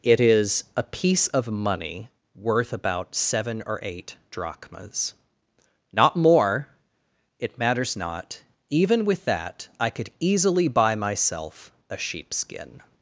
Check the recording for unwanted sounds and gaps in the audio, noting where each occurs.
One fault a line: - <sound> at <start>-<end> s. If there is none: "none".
none